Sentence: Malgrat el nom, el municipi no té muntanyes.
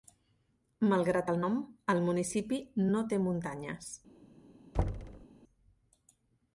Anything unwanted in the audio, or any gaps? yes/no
yes